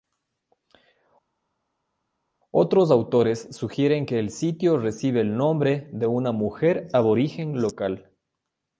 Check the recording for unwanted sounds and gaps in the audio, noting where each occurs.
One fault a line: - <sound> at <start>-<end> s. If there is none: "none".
none